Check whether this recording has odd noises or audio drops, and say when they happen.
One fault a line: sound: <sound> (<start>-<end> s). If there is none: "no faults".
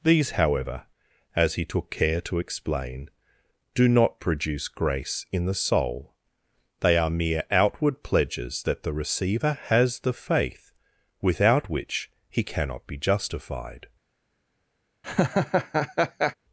sound: laugh (15.0-16.3 s)